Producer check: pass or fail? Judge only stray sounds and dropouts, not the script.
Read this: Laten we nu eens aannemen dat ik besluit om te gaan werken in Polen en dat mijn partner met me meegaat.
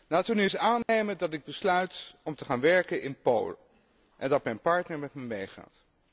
fail